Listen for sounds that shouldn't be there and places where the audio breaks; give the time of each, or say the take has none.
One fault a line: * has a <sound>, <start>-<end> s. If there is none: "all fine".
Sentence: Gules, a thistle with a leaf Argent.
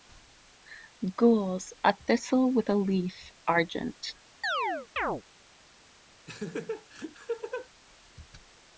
* has a chirp, 4.4-5.2 s
* has a laugh, 6.3-7.7 s